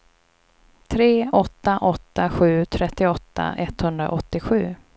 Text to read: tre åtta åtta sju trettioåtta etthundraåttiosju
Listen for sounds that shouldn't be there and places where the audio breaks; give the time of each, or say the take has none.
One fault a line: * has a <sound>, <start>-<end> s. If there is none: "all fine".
all fine